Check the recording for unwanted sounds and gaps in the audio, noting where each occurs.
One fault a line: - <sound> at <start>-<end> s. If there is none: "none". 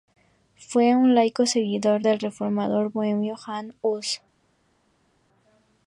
none